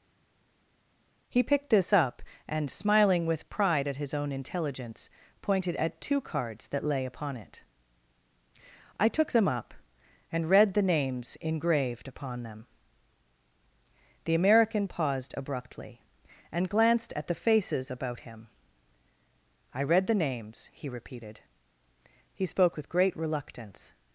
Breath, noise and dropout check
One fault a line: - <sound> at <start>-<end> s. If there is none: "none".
none